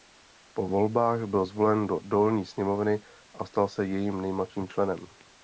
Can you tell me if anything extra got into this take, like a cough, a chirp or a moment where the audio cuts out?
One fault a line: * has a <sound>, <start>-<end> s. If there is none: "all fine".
all fine